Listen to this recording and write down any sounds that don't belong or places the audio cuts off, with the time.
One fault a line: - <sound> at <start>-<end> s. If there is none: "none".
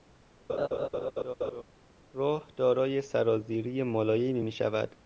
- laugh at 0.5-1.6 s